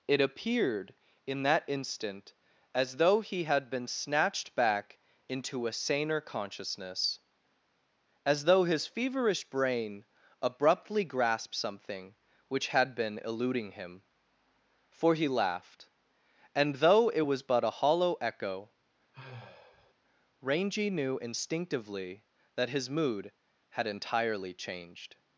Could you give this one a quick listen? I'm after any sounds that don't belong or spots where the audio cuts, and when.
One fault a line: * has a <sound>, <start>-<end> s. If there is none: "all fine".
* has a sigh, 19.1-19.9 s